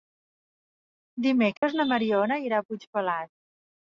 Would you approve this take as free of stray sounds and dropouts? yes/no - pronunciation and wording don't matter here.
no